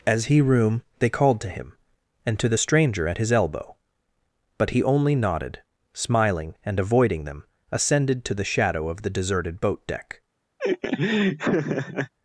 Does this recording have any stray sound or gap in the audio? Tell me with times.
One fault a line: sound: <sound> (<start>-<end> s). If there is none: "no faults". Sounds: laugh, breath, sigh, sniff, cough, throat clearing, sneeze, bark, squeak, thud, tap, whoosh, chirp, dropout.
sound: laugh (10.6-12.1 s)